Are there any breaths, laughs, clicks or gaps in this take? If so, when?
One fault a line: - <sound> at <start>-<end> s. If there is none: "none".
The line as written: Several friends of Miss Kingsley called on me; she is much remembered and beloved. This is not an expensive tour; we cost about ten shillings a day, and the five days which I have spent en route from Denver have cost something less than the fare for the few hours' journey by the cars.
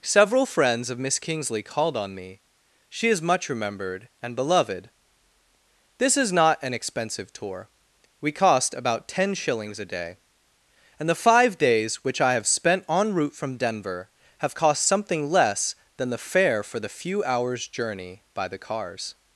none